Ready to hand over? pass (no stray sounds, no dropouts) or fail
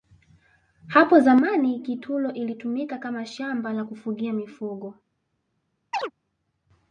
fail